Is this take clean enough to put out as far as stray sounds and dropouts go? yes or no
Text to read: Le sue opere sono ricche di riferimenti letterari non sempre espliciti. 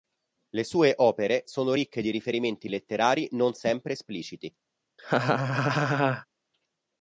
no